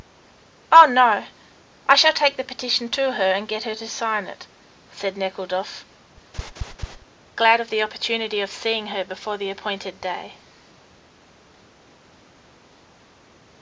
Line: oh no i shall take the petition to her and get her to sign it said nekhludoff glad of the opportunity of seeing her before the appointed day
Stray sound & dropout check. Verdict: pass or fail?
fail